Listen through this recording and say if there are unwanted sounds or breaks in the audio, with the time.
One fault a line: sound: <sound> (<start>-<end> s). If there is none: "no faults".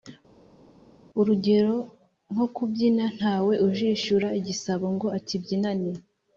no faults